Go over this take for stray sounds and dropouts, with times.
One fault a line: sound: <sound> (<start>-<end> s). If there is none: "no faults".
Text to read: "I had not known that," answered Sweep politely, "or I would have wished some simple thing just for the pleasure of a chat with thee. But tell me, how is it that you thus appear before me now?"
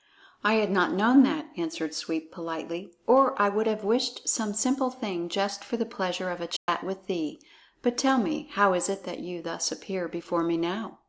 sound: dropout (6.6-6.7 s)